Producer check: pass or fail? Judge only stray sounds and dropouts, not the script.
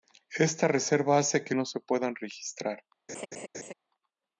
fail